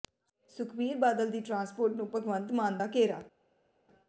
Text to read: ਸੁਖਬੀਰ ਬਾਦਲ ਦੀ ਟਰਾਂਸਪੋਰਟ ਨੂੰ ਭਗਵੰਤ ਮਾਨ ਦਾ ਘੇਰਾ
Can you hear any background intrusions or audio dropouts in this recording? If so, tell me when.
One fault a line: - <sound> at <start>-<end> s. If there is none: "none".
none